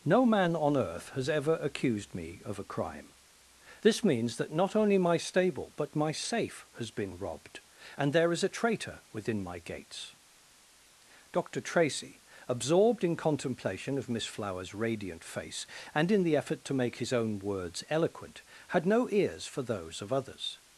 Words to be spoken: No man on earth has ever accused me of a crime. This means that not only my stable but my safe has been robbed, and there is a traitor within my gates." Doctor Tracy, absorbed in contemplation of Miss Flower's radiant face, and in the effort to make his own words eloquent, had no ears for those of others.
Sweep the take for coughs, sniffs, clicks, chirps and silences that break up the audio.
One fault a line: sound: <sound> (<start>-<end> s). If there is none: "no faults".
no faults